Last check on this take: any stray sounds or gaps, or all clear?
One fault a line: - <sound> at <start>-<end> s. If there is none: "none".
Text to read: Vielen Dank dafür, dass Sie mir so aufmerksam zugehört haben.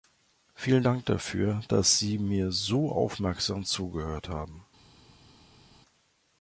none